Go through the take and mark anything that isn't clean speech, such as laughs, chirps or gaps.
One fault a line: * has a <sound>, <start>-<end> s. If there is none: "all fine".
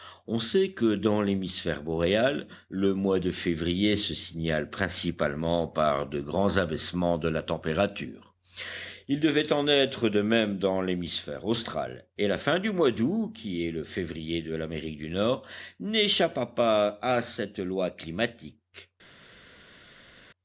all fine